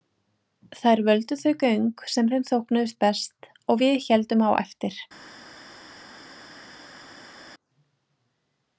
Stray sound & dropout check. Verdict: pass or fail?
pass